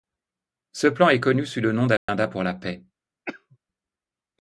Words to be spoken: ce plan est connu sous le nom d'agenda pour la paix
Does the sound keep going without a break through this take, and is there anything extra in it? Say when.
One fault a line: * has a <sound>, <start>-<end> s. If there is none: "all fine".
* has a dropout, 2.0-2.1 s
* has a cough, 3.3-3.6 s